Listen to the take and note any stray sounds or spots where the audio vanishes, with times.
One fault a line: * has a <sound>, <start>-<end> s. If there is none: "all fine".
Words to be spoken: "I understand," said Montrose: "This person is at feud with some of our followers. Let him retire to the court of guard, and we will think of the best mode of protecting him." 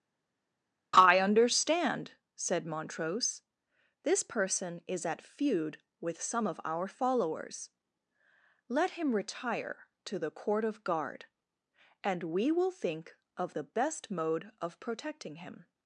all fine